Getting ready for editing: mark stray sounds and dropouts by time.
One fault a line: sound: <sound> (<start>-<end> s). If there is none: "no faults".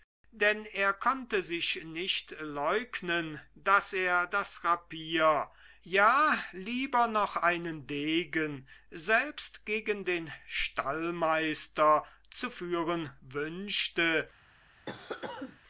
sound: cough (14.9-15.6 s)